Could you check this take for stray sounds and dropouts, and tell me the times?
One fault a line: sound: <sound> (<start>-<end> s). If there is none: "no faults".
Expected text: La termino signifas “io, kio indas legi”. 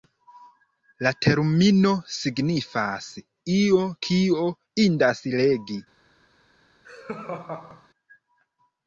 sound: laugh (6.8-7.9 s)